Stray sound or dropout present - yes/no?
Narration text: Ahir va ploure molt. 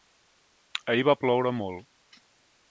no